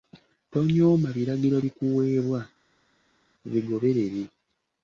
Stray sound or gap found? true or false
false